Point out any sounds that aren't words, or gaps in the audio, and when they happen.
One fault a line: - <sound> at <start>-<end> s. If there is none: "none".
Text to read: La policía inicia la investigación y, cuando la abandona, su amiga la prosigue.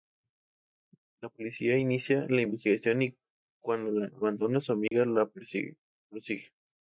- dropout at 4.9-4.9 s